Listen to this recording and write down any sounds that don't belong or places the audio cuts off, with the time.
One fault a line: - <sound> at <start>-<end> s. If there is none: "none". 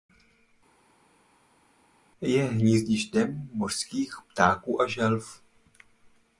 none